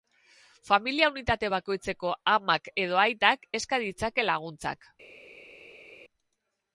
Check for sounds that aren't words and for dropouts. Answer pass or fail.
pass